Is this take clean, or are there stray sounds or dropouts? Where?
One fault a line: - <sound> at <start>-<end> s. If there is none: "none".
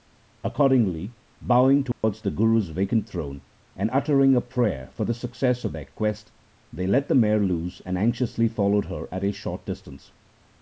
- dropout at 1.9-2.0 s